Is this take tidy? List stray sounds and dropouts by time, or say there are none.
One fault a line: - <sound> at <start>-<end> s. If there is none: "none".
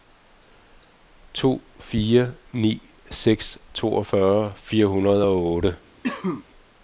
- cough at 6.0-6.5 s